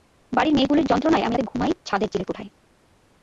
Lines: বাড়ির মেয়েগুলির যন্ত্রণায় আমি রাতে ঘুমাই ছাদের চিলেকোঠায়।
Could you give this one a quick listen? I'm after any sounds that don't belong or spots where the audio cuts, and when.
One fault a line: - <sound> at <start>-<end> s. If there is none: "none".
none